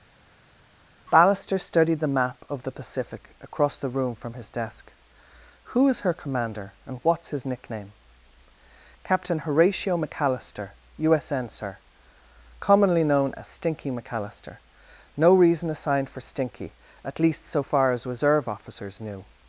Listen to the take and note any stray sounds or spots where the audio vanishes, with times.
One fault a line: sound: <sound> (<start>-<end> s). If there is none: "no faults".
no faults